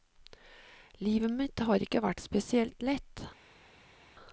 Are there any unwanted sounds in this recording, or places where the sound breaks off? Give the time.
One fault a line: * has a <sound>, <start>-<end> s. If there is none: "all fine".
all fine